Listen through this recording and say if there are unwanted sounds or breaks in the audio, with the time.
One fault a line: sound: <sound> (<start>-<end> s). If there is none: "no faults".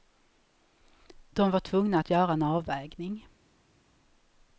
no faults